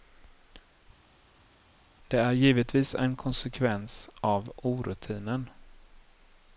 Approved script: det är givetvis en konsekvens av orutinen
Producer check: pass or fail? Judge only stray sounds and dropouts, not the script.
pass